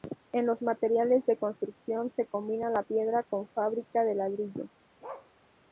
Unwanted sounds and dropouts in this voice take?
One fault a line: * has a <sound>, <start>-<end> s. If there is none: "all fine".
* has a bark, 5.0-5.3 s